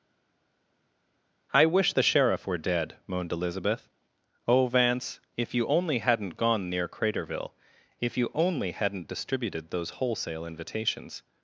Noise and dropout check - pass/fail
pass